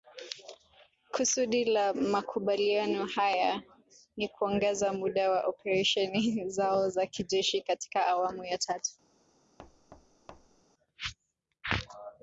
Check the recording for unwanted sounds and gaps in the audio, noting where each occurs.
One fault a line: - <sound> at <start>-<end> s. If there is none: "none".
- thud at 9.6-10.6 s